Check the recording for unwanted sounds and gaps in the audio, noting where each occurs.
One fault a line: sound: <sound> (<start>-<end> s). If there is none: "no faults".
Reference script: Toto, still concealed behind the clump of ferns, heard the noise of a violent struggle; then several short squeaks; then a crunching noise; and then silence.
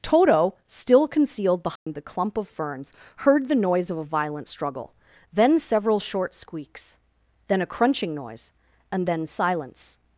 sound: dropout (1.8-1.9 s)